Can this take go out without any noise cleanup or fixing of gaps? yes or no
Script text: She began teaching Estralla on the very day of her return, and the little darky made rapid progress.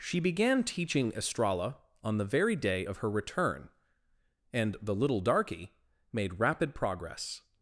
yes